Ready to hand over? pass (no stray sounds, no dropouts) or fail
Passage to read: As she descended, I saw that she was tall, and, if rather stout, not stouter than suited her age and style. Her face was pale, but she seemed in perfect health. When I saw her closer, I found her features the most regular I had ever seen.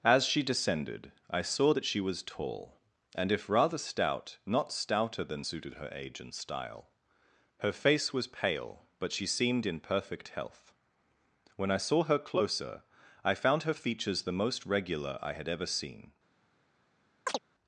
fail